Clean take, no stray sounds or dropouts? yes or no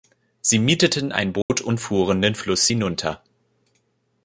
no